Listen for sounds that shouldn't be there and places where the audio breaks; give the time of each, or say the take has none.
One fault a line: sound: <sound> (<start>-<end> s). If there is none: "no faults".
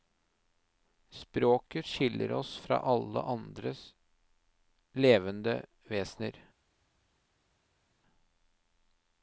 no faults